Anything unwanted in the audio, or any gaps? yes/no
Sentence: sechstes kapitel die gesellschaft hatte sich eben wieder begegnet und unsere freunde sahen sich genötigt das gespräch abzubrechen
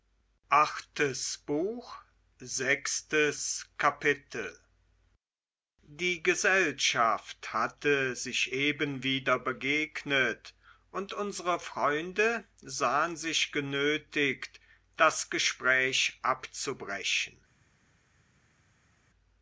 no